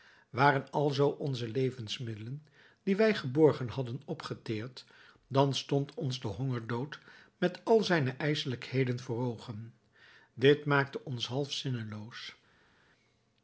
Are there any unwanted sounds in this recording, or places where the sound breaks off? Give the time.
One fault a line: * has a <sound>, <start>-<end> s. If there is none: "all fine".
all fine